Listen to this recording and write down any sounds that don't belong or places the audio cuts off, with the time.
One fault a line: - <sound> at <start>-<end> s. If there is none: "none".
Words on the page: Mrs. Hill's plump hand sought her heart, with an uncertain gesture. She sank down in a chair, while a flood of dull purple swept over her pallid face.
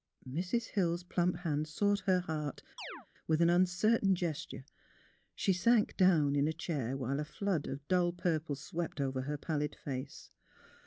- chirp at 2.8-3.1 s